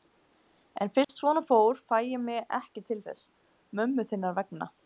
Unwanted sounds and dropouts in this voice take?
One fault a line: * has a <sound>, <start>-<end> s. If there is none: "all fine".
* has a dropout, 1.0-1.1 s